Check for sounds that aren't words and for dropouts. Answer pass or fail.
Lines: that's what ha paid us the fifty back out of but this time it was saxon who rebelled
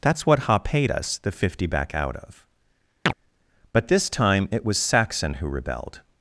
fail